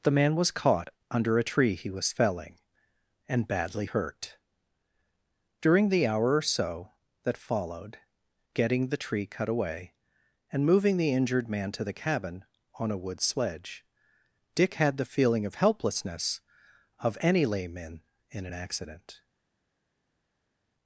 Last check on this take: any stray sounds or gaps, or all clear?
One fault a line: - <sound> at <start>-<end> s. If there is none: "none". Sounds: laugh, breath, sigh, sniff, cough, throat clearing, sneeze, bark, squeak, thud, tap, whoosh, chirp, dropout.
none